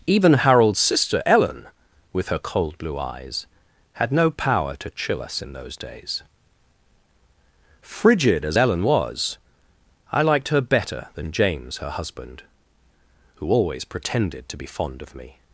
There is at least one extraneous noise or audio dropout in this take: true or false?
false